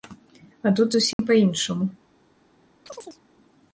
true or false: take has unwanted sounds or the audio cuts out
true